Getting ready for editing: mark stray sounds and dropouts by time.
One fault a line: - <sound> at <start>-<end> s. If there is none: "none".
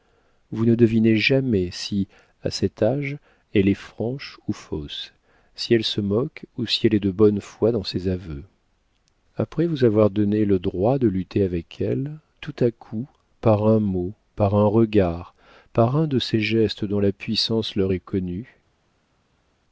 none